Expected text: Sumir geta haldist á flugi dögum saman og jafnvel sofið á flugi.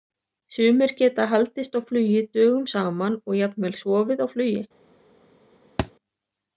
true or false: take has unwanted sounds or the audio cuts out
true